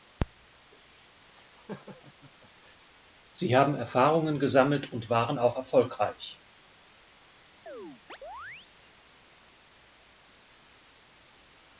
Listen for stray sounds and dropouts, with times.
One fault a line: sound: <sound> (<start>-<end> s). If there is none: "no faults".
sound: laugh (1.3-2.9 s)
sound: chirp (7.7-8.7 s)